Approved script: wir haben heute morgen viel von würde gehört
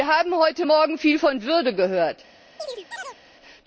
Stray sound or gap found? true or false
true